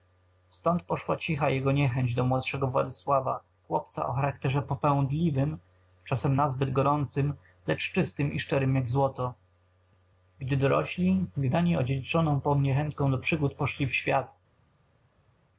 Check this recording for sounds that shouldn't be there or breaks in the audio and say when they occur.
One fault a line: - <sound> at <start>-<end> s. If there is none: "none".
none